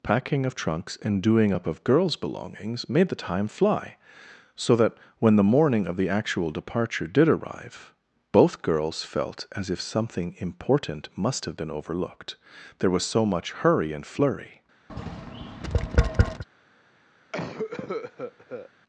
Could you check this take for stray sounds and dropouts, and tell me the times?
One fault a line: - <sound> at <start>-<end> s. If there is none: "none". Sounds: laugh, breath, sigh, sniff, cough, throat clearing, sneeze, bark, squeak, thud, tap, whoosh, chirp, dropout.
- tap at 14.9-16.4 s
- cough at 17.3-18.7 s